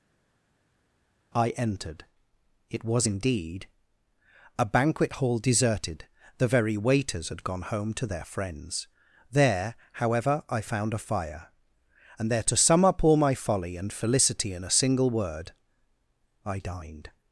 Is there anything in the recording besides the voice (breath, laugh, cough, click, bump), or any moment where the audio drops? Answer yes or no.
no